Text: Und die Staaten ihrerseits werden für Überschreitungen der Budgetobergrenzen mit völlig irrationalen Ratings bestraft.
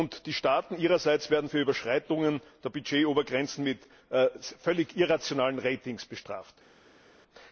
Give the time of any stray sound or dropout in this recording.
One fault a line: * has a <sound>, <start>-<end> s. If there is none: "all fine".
all fine